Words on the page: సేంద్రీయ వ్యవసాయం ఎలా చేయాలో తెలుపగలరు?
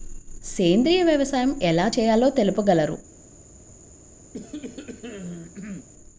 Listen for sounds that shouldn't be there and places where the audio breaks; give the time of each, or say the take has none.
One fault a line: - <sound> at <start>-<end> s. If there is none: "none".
- cough at 4.3-5.9 s